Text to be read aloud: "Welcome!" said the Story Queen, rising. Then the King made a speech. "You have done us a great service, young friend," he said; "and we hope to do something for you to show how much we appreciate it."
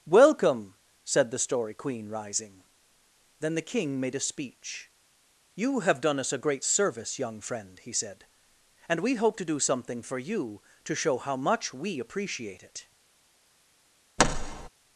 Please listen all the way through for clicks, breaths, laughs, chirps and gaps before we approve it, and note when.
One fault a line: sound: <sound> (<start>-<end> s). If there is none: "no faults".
sound: thud (14.2-14.7 s)